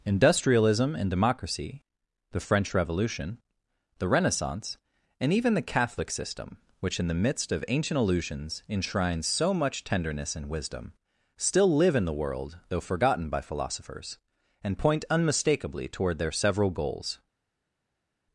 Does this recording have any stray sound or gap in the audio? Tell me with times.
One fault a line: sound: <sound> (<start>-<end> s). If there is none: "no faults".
no faults